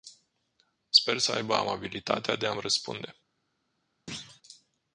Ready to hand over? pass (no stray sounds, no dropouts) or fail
fail